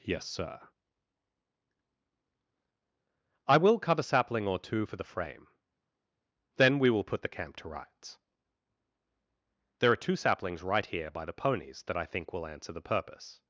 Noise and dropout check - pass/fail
pass